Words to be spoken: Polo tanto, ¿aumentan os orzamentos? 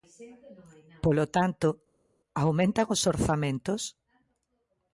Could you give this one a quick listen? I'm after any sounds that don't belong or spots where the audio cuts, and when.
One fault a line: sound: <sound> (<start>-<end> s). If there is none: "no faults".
no faults